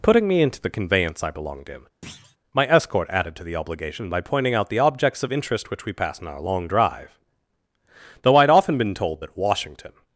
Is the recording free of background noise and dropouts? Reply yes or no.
no